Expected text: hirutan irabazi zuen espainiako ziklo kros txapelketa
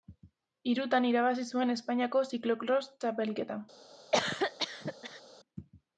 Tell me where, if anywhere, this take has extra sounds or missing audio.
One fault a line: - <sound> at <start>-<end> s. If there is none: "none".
- cough at 4.1-5.2 s